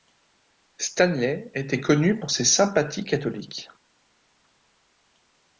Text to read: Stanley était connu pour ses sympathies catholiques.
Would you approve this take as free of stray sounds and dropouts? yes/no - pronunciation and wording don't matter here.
yes